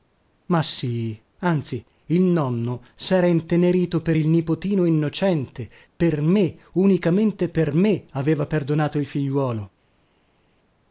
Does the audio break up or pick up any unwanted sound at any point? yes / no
no